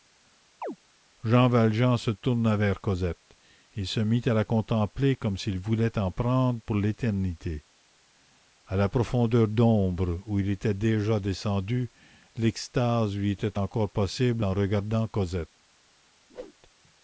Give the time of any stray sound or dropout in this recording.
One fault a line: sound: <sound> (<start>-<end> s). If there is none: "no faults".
sound: chirp (0.6-0.8 s)
sound: whoosh (16.3-16.5 s)